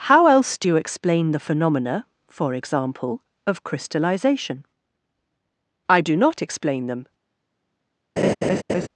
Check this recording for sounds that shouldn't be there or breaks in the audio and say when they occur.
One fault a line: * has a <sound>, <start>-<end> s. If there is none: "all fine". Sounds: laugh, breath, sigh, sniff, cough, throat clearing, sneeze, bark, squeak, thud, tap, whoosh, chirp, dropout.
* has a laugh, 8.2-8.9 s